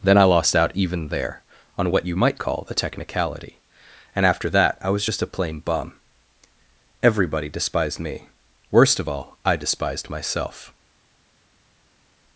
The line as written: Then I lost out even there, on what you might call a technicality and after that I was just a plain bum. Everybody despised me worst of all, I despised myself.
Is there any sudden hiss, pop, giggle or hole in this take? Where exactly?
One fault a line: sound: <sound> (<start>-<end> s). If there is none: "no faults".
no faults